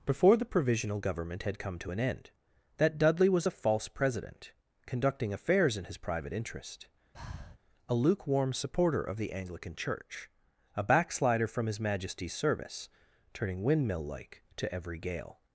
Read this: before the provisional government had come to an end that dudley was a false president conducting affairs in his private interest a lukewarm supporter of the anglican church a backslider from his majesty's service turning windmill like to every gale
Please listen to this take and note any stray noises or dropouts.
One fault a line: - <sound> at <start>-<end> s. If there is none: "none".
- breath at 7.1-7.6 s